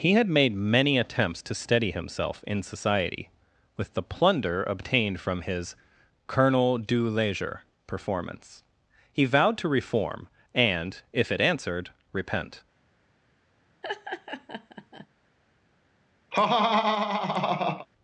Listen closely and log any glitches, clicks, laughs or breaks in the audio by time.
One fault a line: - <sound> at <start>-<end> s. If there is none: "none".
- laugh at 13.8-15.1 s
- laugh at 16.3-17.9 s